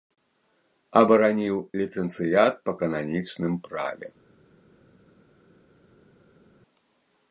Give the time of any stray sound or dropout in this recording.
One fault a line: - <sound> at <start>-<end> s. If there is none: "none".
none